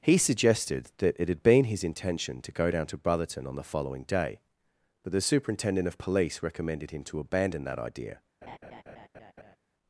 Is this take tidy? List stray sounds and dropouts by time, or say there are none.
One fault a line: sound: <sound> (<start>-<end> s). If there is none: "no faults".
sound: laugh (8.4-9.6 s)